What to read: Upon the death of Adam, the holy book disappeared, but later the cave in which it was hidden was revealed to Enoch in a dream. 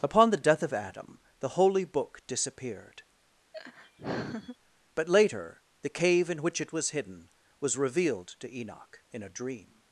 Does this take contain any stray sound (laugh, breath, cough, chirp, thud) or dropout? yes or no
yes